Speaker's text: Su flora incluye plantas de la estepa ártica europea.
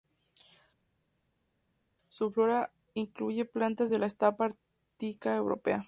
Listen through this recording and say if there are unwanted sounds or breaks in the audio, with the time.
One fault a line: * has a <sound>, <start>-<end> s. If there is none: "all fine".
all fine